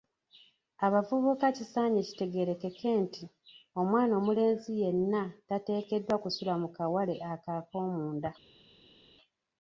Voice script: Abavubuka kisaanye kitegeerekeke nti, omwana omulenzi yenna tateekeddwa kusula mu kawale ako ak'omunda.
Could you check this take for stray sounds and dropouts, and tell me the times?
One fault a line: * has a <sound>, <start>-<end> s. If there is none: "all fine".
all fine